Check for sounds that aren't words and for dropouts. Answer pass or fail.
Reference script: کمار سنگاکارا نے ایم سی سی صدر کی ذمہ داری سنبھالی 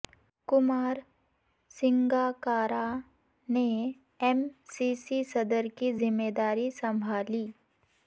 pass